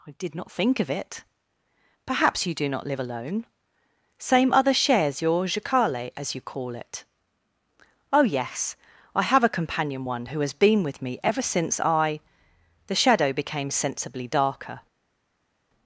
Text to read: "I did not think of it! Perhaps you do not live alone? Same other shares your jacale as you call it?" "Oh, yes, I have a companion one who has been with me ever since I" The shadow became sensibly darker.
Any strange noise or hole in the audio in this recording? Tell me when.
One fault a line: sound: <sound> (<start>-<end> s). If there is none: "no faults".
no faults